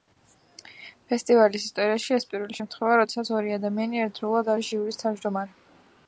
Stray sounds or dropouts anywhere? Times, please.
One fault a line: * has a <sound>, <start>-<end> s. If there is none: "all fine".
all fine